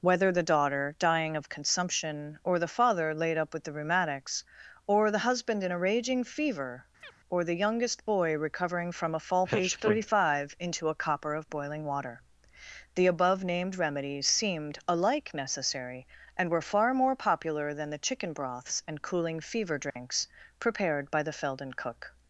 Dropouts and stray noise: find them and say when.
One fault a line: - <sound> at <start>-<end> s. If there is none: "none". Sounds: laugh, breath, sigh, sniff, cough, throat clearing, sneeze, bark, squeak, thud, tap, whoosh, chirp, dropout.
- chirp at 7.0-7.1 s
- dropout at 19.9-20.0 s